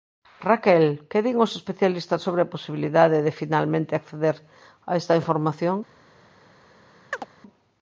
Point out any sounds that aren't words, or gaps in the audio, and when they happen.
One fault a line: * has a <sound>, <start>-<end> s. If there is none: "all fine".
* has a chirp, 7.1-7.3 s